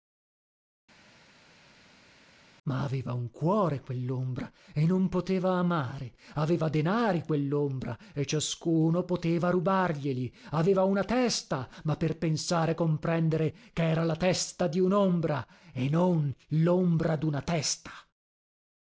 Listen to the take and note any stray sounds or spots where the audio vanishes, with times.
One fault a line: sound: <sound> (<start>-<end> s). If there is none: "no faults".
no faults